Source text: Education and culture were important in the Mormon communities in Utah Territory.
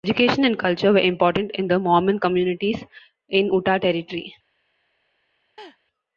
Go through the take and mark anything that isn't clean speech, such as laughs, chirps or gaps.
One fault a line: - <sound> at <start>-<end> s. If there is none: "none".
- laugh at 5.6-5.8 s